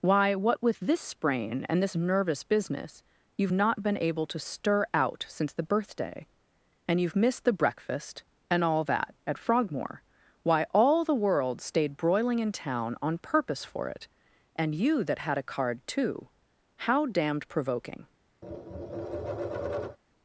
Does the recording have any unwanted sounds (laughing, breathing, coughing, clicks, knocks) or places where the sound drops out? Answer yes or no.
yes